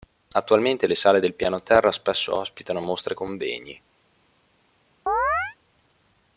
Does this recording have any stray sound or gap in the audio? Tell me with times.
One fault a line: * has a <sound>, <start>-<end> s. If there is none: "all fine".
* has a chirp, 5.1-5.6 s